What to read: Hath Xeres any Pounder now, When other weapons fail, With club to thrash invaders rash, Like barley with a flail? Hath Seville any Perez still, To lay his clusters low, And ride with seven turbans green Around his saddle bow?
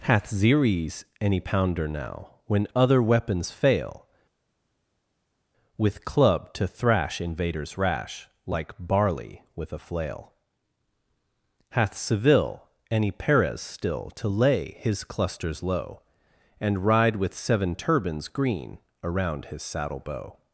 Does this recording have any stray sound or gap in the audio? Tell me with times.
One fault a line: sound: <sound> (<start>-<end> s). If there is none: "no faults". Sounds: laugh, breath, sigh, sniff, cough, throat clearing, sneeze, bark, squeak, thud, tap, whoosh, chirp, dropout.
no faults